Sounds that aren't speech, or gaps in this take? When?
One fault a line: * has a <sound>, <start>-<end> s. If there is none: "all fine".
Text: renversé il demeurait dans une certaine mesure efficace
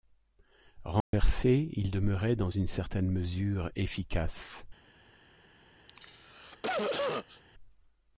* has a dropout, 1.0-1.1 s
* has a cough, 5.9-7.4 s